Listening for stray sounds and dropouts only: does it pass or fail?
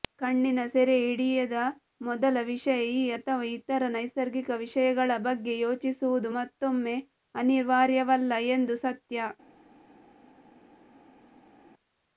pass